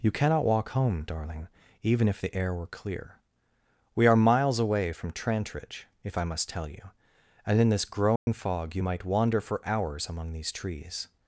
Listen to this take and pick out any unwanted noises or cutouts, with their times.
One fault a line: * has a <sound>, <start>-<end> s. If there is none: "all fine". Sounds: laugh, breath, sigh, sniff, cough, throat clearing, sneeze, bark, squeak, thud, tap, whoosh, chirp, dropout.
* has a dropout, 8.2-8.3 s